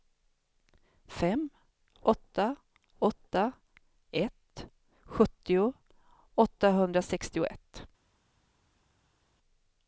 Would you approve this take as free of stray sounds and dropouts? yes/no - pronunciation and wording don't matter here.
yes